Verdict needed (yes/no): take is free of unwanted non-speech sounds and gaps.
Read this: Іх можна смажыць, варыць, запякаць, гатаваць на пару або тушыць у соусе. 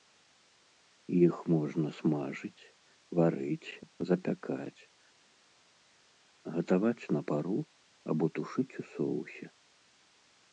yes